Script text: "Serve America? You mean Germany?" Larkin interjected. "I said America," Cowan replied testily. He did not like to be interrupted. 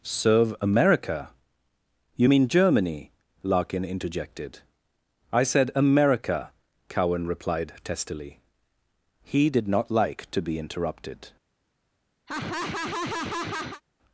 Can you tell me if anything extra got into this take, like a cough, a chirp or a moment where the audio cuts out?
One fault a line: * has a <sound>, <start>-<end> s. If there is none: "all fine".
* has a laugh, 12.3-13.8 s